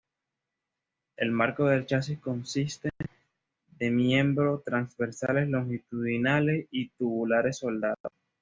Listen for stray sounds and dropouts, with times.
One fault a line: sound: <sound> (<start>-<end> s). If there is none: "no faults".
no faults